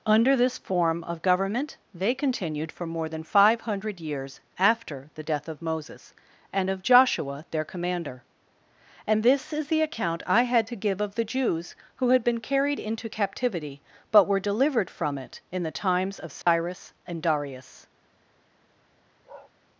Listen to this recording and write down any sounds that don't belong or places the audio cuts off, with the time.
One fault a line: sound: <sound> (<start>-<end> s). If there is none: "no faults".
sound: dropout (16.4-16.5 s)
sound: bark (19.2-19.5 s)